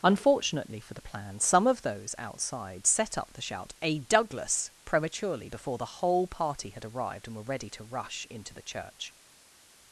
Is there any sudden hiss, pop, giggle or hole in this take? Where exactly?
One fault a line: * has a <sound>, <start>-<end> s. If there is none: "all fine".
all fine